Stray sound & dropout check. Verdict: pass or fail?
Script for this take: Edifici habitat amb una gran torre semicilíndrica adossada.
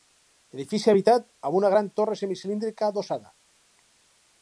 pass